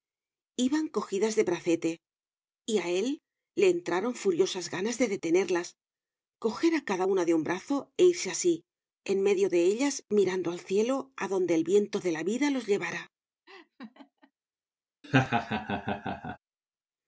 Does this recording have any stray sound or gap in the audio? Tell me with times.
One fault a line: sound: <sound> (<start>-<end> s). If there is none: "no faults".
sound: laugh (13.5-14.3 s)
sound: laugh (15.0-16.4 s)